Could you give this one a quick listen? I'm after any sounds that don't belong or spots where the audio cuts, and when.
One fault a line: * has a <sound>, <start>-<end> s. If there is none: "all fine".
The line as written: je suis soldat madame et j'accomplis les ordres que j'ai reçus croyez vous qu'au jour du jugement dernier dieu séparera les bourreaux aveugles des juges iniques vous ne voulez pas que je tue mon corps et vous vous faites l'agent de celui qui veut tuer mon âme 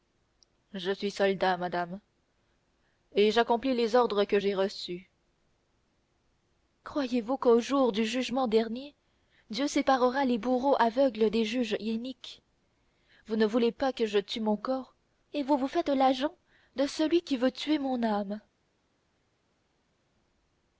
all fine